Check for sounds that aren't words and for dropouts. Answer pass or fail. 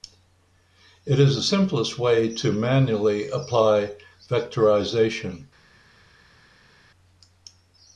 pass